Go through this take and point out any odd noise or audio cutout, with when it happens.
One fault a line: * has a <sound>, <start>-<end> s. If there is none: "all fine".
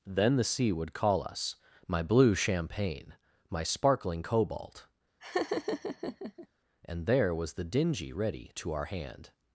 * has a laugh, 5.2-6.5 s